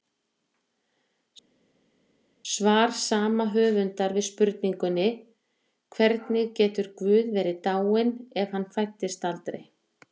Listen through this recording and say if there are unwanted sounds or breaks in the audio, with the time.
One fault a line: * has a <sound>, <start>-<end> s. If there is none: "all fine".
all fine